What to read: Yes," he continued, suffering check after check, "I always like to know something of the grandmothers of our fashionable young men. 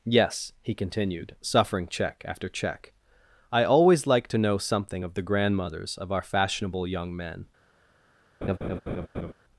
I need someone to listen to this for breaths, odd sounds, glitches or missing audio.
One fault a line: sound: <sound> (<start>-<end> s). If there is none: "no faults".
sound: laugh (8.4-9.3 s)